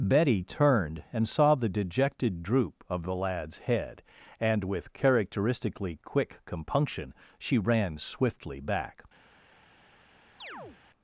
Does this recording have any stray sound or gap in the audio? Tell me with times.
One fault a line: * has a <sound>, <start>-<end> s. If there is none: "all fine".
* has a chirp, 10.4-10.8 s